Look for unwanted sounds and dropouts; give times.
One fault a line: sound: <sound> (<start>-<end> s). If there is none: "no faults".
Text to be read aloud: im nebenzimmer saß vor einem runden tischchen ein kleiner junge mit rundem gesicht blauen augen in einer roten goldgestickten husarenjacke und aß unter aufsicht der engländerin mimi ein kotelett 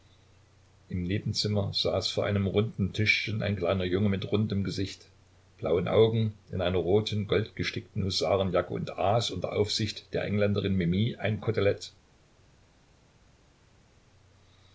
no faults